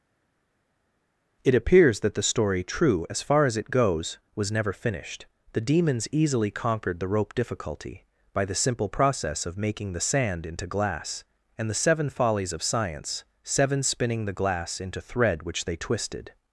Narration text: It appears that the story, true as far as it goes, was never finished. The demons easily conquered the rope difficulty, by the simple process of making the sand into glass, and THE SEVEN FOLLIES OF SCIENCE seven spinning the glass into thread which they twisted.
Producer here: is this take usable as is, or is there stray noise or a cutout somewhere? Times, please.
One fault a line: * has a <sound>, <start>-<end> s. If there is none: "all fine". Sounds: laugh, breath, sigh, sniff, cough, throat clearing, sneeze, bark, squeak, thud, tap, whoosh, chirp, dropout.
all fine